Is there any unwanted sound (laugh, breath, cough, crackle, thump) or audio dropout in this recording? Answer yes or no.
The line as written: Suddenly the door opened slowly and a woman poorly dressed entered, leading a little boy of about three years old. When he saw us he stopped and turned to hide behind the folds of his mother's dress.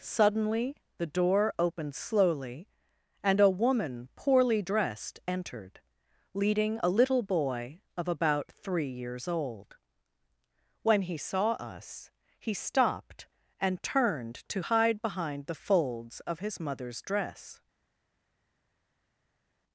no